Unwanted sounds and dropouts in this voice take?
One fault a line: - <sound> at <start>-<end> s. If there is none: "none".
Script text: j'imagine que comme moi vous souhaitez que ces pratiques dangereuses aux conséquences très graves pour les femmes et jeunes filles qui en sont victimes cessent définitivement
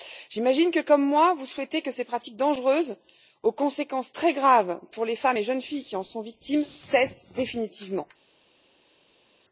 none